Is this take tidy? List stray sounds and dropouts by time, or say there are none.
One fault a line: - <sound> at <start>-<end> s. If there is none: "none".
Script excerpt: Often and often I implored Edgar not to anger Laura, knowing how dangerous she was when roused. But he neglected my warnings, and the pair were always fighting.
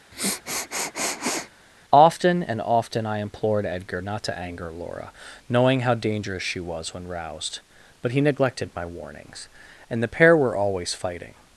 - sniff at 0.1-1.5 s